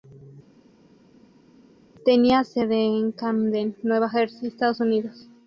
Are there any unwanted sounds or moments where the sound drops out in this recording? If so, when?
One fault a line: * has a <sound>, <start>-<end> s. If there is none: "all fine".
all fine